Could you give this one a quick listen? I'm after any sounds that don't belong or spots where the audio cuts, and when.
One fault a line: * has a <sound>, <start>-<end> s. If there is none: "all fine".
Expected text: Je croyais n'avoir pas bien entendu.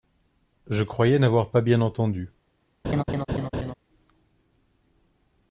* has a laugh, 2.8-3.7 s